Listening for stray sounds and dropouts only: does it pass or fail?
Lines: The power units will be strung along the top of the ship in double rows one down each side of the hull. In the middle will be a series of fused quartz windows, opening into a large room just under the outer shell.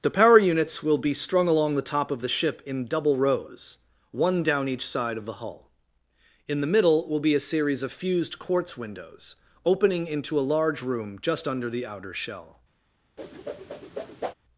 fail